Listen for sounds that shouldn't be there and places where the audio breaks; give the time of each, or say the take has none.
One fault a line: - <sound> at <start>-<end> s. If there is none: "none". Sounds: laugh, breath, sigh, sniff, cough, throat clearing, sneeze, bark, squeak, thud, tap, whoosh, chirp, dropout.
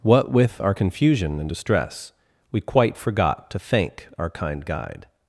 none